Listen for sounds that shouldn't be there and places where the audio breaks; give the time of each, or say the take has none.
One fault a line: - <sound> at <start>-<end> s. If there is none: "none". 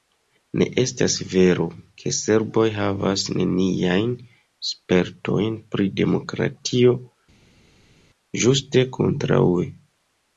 none